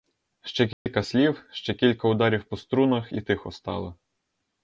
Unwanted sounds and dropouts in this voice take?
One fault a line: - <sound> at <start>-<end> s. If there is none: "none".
- dropout at 0.7-0.9 s